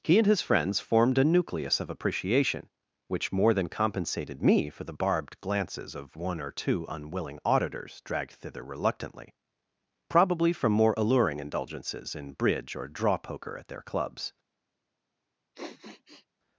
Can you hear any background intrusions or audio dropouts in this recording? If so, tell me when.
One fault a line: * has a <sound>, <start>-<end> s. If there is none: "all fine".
* has a sniff, 15.5-16.3 s